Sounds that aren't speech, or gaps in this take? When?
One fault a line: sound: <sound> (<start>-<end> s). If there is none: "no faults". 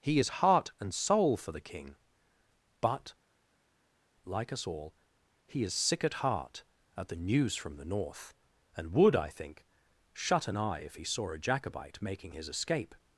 no faults